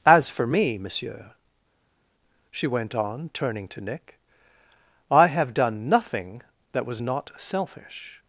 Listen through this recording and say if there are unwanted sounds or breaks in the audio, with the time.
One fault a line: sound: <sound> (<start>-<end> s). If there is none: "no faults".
no faults